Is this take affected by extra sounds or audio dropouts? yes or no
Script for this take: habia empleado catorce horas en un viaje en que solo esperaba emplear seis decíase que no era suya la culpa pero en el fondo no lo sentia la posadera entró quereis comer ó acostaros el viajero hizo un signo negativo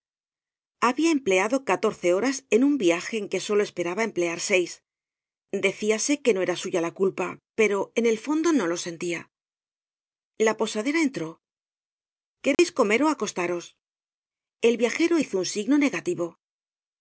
yes